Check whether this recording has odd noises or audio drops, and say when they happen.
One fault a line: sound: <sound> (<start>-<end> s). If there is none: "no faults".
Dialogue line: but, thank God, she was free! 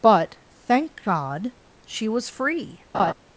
sound: laugh (2.9-3.1 s)